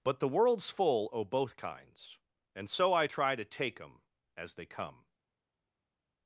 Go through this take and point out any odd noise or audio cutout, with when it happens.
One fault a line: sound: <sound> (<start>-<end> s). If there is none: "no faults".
no faults